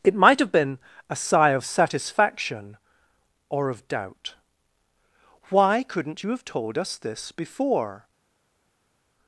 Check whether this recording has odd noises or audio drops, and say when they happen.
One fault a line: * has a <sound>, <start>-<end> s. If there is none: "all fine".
all fine